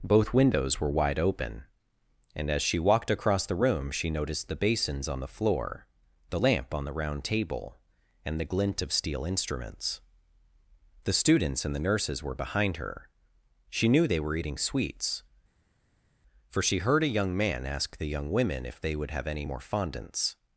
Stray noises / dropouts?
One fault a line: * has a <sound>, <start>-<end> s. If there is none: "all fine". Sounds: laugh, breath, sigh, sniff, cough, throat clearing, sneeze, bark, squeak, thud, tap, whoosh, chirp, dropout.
all fine